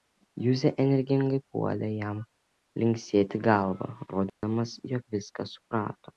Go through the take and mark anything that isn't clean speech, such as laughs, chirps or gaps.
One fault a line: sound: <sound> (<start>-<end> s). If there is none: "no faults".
sound: dropout (4.3-4.4 s)